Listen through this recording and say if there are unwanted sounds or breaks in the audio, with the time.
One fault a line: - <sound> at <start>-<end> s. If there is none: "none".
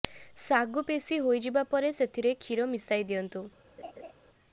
- laugh at 3.8-4.1 s